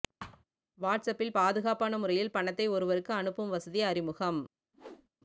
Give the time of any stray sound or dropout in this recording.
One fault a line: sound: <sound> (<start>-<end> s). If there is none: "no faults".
sound: thud (0.2-0.4 s)
sound: whoosh (4.7-5.1 s)